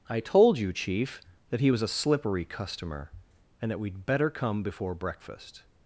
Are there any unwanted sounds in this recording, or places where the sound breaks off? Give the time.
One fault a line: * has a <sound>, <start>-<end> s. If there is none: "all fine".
all fine